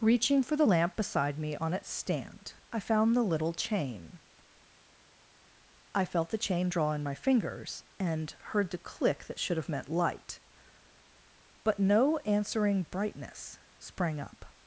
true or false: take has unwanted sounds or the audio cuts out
false